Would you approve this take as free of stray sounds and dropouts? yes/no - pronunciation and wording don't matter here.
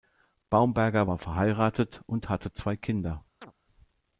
no